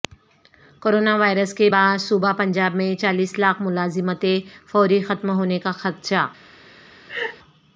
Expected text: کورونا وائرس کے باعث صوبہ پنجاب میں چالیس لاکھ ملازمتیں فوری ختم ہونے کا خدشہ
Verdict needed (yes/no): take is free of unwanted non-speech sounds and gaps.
no